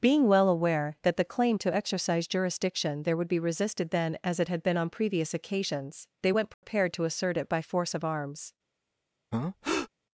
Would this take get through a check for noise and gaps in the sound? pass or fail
fail